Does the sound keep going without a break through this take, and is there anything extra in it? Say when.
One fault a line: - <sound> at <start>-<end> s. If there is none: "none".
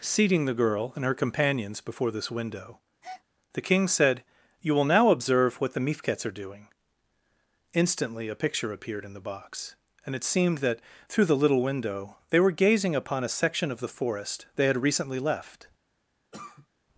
- breath at 3.0-3.2 s
- cough at 16.3-16.7 s